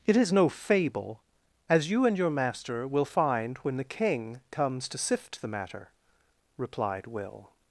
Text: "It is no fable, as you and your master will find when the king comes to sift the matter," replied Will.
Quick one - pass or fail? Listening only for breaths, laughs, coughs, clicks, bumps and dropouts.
pass